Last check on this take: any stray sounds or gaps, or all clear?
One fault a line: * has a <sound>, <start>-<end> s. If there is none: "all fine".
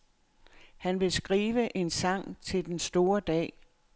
all fine